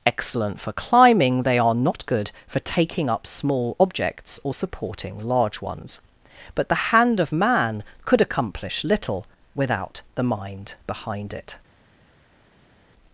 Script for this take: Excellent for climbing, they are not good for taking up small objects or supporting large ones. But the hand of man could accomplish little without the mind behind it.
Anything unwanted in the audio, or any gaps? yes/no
no